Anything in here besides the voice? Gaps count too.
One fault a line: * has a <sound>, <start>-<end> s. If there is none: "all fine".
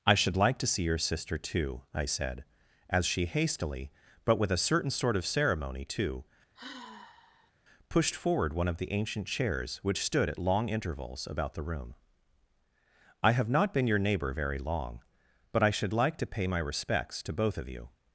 * has a sigh, 6.5-7.5 s